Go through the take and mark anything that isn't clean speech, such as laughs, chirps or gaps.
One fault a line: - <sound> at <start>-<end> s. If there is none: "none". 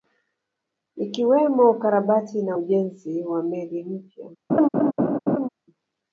- laugh at 4.5-5.5 s